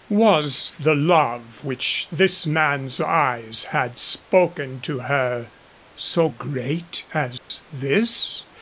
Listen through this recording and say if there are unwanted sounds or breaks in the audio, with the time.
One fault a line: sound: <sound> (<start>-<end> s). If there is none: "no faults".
sound: dropout (7.4-7.5 s)